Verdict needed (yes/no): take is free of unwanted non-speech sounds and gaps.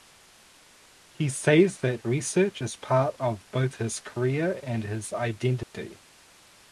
no